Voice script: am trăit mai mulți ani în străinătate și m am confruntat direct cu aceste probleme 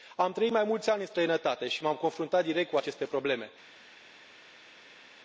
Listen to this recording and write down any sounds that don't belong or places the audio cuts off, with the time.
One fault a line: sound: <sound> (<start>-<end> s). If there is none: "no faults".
no faults